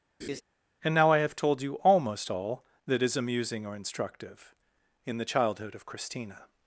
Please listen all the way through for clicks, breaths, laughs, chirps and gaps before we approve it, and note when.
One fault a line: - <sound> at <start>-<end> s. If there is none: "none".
- laugh at 0.2-0.4 s